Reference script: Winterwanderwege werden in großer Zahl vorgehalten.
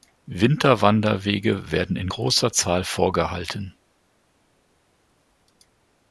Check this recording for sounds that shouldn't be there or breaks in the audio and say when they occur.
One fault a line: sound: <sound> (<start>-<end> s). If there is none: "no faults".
no faults